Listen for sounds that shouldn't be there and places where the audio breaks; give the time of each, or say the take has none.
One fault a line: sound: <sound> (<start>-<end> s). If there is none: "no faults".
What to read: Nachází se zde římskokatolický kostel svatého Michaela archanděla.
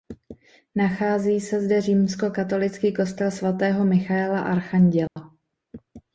sound: dropout (5.1-5.2 s)